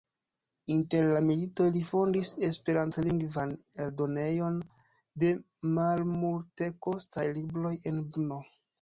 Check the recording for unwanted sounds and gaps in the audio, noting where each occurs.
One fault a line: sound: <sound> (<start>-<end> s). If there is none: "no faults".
no faults